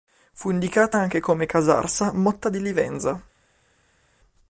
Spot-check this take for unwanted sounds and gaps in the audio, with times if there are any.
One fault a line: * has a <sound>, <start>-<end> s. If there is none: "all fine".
all fine